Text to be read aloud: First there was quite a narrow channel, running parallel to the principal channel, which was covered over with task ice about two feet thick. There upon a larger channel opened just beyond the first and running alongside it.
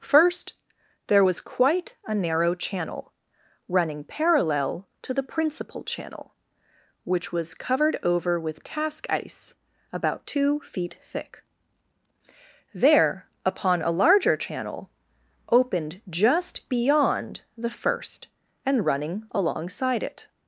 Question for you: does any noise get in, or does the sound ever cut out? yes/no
no